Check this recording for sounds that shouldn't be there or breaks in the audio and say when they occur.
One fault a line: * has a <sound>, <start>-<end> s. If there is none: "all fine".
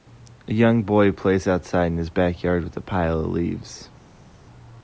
all fine